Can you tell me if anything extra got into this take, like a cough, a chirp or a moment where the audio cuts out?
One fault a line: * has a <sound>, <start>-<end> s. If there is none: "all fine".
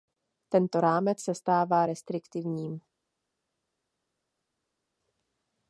all fine